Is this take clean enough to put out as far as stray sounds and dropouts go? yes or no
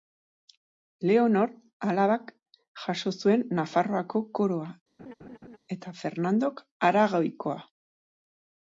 no